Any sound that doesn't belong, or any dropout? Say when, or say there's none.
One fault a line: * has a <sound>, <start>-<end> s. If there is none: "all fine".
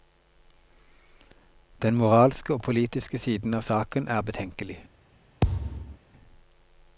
* has a thud, 5.4-6.0 s